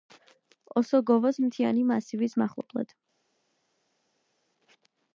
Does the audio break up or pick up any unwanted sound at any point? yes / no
no